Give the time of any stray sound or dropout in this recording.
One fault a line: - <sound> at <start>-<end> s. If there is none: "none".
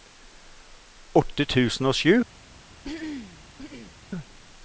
- throat clearing at 2.8-4.0 s